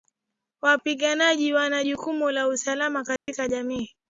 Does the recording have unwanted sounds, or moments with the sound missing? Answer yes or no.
yes